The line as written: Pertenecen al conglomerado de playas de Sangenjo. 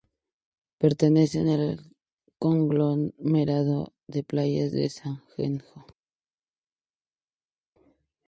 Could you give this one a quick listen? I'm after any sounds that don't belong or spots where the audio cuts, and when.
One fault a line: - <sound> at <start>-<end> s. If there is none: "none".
none